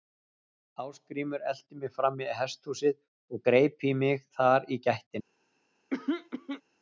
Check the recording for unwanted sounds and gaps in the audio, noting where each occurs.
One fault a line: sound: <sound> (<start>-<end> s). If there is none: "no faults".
sound: throat clearing (5.9-6.6 s)